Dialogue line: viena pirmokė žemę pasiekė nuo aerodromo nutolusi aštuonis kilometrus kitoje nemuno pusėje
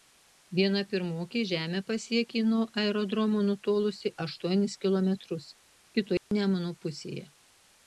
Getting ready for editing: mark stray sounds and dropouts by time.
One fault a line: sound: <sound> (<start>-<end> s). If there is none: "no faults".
sound: dropout (6.2-6.3 s)